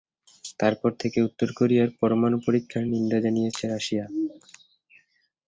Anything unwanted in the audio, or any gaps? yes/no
no